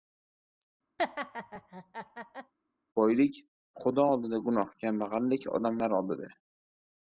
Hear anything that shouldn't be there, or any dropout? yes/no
yes